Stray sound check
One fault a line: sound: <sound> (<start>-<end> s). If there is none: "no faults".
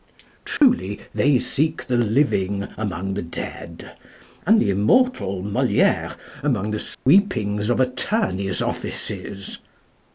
sound: dropout (0.6-0.6 s)
sound: dropout (6.9-7.1 s)